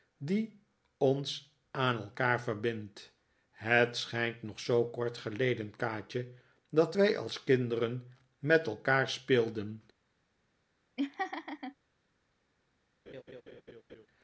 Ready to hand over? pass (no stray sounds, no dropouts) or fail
fail